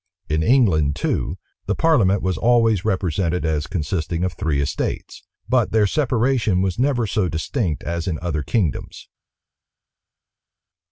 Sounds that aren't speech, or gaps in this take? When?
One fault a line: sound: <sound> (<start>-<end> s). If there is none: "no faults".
no faults